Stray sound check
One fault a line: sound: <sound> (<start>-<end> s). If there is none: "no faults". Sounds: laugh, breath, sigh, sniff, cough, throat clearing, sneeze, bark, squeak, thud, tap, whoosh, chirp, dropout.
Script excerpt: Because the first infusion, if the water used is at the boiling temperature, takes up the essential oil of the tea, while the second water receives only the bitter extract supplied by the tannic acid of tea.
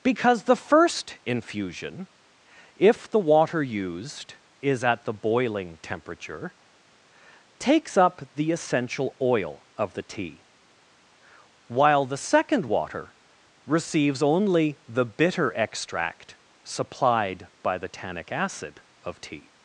no faults